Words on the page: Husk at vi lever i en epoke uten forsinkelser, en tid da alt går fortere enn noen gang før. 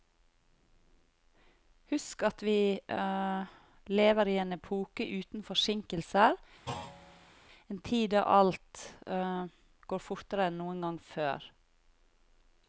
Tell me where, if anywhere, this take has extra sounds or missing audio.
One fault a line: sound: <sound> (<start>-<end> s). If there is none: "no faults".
sound: thud (6.7-7.3 s)